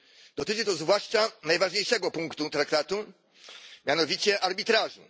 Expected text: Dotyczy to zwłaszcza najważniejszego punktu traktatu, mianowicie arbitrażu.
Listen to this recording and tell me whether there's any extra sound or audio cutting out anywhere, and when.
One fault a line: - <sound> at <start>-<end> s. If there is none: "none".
none